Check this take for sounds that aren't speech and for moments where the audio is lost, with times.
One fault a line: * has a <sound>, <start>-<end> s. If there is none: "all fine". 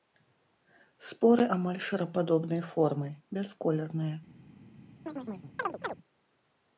* has a chirp, 5.1-5.9 s